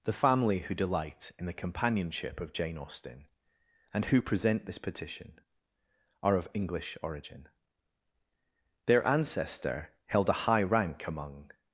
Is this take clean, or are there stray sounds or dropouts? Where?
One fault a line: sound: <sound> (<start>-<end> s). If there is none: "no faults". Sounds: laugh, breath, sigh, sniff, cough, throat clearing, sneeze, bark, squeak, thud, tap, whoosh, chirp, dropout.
no faults